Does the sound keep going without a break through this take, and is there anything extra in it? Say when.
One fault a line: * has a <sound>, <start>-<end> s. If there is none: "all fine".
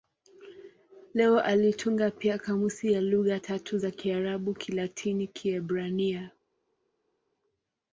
all fine